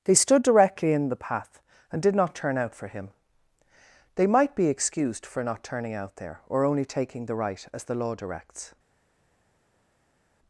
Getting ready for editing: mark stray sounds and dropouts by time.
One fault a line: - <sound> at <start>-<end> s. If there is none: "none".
none